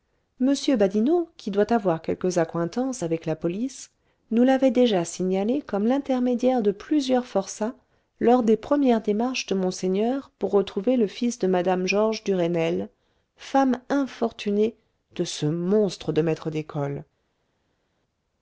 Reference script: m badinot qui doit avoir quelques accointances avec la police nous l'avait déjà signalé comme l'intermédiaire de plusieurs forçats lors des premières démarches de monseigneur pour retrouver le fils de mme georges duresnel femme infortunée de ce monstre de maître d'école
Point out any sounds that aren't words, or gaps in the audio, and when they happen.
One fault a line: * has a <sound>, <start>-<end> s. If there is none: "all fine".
all fine